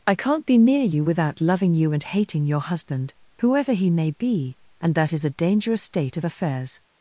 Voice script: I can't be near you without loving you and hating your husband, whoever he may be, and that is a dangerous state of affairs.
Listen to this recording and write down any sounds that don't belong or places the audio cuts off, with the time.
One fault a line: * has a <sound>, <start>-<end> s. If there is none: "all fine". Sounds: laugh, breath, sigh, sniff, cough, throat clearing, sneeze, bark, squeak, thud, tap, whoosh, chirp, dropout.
all fine